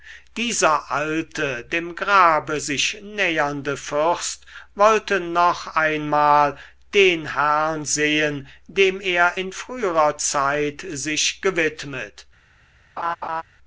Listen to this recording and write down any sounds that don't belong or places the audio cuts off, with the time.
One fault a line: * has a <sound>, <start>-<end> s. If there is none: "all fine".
* has a laugh, 13.0-13.4 s